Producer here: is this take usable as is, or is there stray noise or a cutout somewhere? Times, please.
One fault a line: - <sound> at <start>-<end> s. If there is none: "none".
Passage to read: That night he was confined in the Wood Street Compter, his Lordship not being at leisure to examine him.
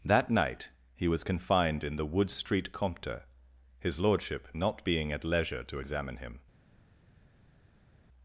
none